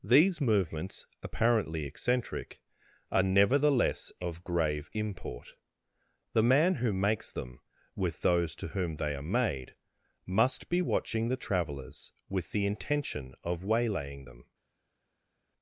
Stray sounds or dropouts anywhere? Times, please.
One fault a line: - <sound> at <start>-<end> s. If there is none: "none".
none